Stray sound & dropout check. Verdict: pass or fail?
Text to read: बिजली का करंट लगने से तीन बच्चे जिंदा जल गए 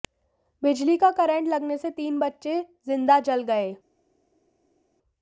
pass